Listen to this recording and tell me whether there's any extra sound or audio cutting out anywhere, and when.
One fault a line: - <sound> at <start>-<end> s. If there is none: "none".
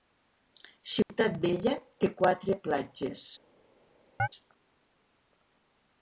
- dropout at 1.0-1.1 s
- chirp at 4.2-4.3 s